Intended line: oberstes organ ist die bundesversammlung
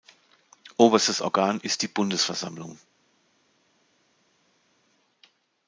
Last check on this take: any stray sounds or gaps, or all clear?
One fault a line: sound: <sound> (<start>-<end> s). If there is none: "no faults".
no faults